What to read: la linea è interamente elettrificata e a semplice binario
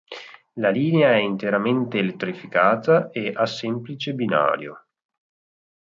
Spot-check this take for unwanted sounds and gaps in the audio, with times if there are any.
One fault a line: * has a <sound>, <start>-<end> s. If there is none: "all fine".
all fine